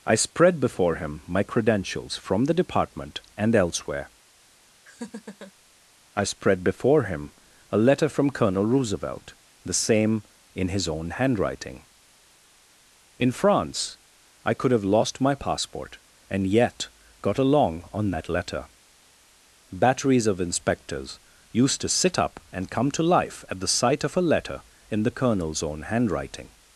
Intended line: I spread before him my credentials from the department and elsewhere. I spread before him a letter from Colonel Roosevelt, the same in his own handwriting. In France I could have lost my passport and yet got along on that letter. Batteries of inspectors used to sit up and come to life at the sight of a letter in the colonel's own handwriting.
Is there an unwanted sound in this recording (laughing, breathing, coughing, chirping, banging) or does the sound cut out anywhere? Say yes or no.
yes